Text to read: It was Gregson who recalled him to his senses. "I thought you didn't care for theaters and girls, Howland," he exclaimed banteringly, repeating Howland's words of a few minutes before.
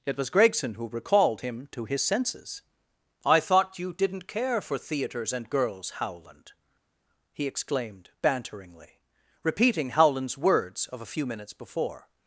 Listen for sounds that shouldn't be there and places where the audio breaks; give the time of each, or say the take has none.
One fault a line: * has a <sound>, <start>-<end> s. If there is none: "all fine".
all fine